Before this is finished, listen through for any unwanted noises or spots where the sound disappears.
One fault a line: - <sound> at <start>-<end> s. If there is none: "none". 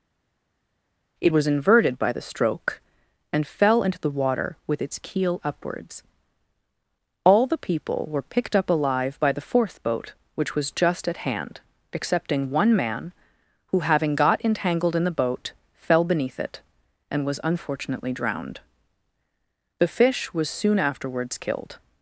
none